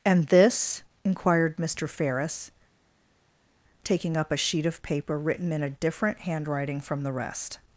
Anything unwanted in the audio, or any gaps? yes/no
no